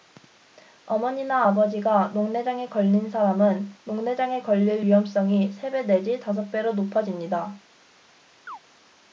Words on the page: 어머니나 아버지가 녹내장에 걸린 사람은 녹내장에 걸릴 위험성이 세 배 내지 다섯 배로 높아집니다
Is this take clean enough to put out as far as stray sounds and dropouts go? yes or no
no